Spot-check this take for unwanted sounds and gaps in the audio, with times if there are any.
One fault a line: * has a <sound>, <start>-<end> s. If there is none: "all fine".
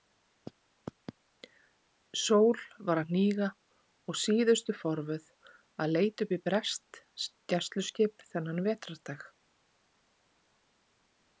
all fine